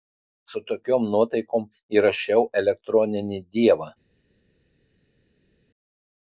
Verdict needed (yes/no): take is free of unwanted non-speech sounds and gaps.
yes